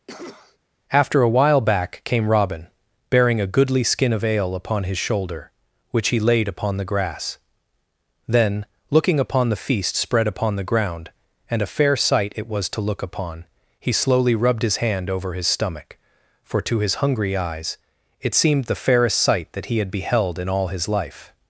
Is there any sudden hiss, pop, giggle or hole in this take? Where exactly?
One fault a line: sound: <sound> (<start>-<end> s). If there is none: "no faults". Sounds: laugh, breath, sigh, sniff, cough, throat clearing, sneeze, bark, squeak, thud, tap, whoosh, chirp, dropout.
sound: cough (0.1-0.6 s)